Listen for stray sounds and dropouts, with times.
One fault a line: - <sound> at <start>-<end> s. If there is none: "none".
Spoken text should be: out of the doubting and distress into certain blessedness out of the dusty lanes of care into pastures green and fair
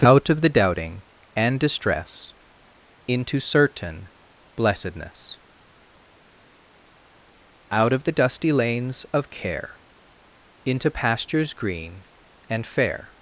none